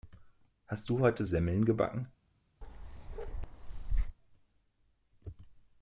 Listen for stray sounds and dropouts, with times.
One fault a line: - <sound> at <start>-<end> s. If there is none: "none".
- bark at 2.6-4.2 s